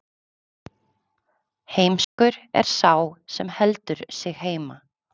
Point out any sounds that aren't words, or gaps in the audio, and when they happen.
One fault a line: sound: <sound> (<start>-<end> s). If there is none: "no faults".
sound: dropout (2.0-2.2 s)